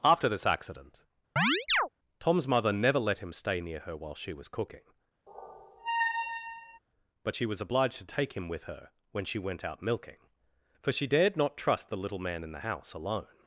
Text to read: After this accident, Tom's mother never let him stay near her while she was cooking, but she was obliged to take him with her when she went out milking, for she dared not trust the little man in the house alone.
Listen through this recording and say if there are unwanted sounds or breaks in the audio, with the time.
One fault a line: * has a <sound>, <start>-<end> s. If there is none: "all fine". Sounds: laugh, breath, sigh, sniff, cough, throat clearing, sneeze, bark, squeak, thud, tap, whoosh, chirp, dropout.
* has a chirp, 1.4-1.9 s
* has a squeak, 5.3-6.8 s